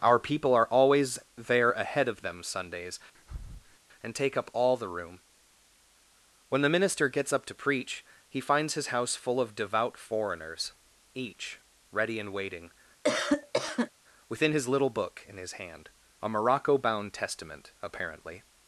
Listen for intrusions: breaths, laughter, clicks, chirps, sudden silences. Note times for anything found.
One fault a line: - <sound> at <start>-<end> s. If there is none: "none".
- breath at 3.1-3.8 s
- cough at 13.0-13.9 s